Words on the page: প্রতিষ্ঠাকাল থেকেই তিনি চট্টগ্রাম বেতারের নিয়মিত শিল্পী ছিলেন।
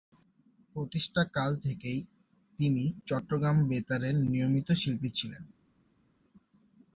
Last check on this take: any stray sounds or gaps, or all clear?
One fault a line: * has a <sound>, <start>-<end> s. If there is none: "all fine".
all fine